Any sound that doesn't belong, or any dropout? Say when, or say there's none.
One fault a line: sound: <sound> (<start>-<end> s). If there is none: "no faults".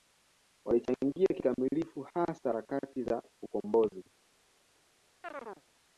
sound: chirp (5.2-5.6 s)